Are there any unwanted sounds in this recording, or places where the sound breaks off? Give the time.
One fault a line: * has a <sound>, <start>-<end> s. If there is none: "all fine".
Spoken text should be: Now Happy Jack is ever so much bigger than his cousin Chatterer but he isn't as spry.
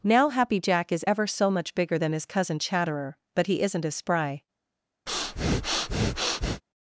* has a breath, 5.1-6.6 s